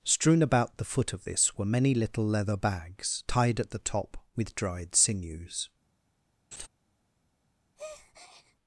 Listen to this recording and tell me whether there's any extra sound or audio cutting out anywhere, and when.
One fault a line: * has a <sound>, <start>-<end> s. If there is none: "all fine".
* has a laugh, 6.5-6.7 s
* has a breath, 7.8-8.6 s